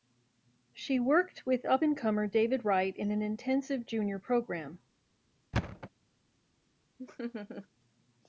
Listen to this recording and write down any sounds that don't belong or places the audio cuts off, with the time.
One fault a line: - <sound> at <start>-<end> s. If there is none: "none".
- thud at 5.5-5.9 s
- laugh at 7.0-7.7 s